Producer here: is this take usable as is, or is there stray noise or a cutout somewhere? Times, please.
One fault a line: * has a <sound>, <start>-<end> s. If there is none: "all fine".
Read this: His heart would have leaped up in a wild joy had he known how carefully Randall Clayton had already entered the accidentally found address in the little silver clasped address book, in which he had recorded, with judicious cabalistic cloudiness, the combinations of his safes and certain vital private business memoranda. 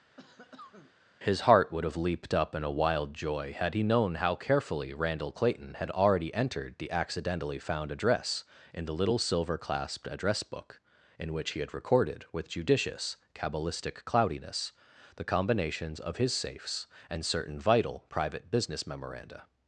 * has a cough, 0.2-0.9 s